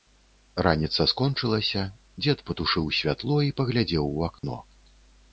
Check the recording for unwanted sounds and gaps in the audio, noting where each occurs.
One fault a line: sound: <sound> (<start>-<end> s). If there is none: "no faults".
sound: dropout (4.4-4.4 s)